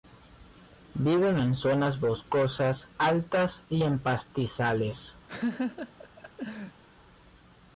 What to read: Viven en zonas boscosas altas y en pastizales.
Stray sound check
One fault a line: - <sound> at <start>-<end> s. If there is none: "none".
- laugh at 5.3-6.8 s